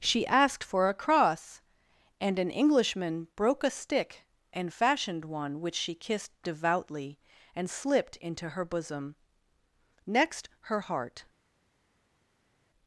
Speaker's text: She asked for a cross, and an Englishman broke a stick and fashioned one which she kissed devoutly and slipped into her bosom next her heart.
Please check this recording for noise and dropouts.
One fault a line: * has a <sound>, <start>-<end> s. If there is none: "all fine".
all fine